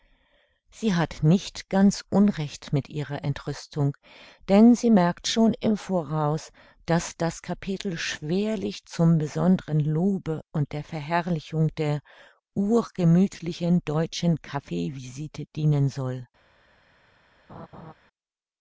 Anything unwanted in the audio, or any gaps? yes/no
yes